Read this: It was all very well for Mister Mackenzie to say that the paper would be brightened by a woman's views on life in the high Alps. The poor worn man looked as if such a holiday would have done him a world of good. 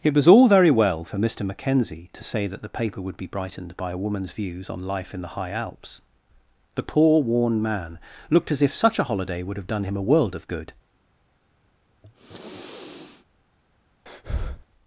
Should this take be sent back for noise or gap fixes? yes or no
yes